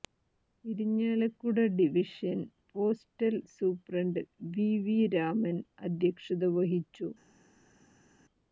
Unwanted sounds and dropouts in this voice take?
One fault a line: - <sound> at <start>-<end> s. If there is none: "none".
none